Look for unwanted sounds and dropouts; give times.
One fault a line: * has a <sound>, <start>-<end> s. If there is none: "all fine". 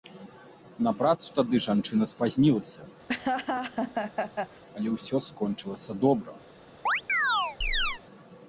* has a laugh, 3.1-4.6 s
* has a chirp, 6.9-8.0 s